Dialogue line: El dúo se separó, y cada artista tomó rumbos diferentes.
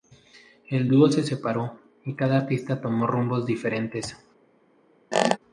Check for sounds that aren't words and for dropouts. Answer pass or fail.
fail